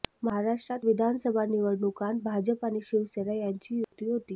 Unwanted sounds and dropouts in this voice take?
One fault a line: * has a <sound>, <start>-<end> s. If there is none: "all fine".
* has a dropout, 3.8-3.9 s